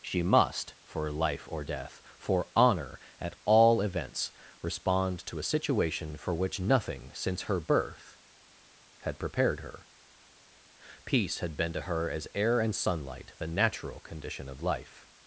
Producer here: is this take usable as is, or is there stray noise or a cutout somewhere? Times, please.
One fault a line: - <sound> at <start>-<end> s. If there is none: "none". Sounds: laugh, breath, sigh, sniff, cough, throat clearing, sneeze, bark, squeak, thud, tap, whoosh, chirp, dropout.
none